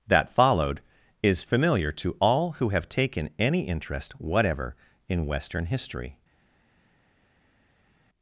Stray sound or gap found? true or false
false